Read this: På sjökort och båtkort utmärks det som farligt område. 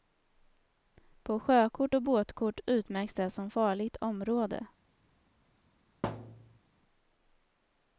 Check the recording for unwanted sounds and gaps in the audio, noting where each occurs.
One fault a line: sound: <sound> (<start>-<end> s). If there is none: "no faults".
sound: thud (6.0-6.6 s)